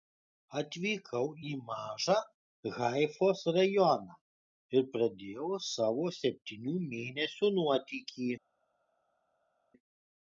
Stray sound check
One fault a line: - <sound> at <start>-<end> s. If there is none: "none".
none